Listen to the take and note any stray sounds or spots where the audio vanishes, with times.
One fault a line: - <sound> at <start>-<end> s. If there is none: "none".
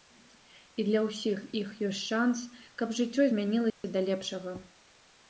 - dropout at 3.7-3.8 s